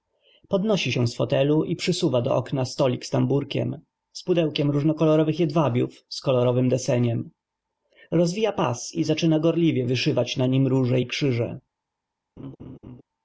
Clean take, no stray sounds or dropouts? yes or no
no